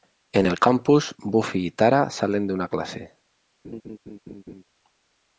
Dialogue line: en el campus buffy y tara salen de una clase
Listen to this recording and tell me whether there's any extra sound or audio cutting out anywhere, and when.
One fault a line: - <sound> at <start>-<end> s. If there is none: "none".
- laugh at 3.6-4.6 s